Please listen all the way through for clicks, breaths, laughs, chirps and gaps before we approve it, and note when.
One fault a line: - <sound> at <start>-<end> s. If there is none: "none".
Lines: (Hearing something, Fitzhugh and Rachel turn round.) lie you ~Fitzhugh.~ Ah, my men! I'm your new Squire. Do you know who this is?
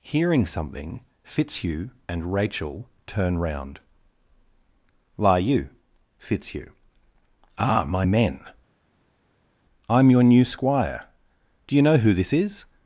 none